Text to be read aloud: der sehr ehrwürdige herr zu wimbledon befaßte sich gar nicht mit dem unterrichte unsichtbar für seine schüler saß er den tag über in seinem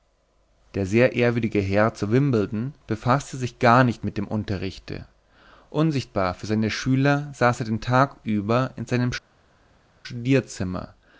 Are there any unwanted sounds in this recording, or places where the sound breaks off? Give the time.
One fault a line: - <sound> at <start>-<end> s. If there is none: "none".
none